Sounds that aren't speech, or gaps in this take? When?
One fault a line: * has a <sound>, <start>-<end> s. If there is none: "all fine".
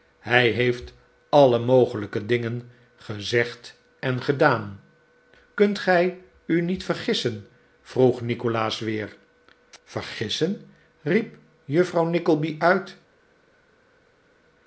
all fine